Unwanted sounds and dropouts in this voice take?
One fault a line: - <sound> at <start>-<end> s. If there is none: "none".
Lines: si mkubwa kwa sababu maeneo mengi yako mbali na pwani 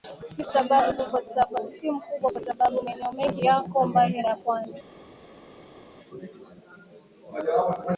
none